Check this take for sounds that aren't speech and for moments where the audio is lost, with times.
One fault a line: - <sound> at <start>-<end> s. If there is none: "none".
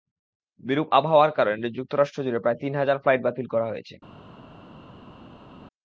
none